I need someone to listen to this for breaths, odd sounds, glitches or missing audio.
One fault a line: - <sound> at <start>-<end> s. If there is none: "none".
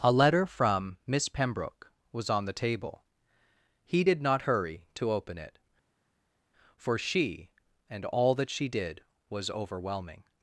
none